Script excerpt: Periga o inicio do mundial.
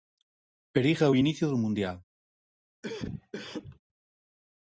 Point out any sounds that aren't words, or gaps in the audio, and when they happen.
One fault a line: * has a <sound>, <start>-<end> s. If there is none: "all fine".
* has a cough, 2.8-3.8 s